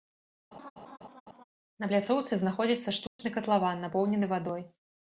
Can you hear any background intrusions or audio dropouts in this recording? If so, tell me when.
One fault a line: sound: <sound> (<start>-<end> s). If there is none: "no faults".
sound: laugh (0.5-1.4 s)
sound: dropout (3.1-3.2 s)